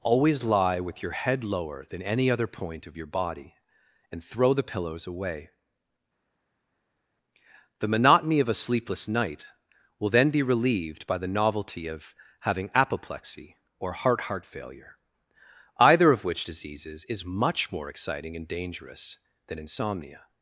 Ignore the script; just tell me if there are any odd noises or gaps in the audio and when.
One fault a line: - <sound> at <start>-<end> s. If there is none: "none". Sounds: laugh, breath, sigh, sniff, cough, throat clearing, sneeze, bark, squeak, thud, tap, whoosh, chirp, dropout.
none